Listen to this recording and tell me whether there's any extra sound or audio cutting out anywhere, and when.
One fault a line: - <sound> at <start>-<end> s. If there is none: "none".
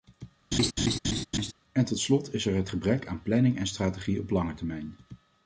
- laugh at 0.5-1.5 s